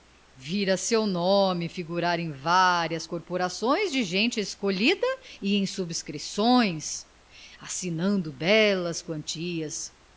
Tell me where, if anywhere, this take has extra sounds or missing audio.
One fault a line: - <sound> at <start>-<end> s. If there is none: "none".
none